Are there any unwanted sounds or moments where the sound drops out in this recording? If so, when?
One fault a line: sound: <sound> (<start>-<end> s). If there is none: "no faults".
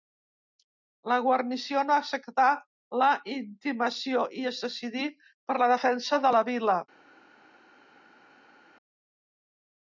no faults